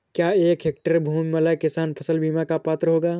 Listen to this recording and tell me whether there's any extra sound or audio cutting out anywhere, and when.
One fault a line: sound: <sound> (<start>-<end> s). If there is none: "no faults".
no faults